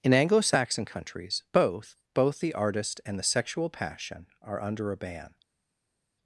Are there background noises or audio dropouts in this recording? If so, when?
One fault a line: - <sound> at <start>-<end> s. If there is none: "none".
none